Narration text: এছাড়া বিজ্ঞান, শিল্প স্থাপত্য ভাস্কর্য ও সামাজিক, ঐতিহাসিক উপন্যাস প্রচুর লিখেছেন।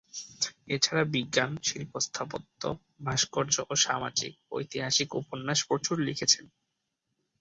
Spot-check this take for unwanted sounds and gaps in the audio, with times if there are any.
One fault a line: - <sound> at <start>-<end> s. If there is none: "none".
none